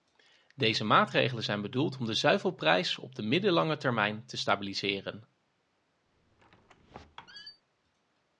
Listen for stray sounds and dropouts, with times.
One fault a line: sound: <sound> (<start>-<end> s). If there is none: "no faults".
sound: squeak (6.1-7.6 s)